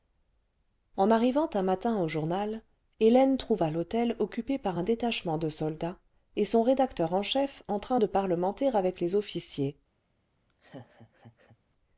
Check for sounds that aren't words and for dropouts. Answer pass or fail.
fail